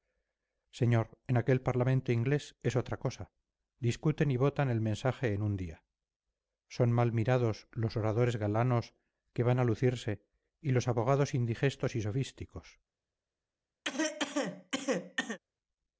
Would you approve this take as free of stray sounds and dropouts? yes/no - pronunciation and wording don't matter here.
no